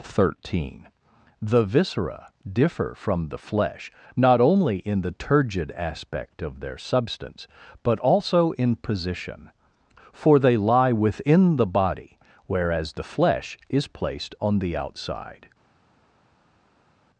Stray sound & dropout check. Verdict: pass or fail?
pass